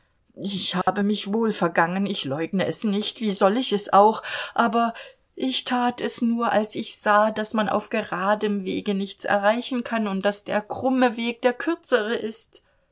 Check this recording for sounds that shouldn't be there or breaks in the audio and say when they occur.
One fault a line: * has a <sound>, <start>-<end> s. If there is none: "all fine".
* has a dropout, 0.8-0.9 s